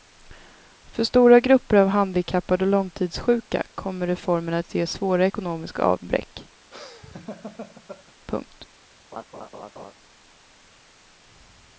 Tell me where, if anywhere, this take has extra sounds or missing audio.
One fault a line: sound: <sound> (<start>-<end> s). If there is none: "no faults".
sound: laugh (6.7-8.1 s)
sound: laugh (9.1-9.9 s)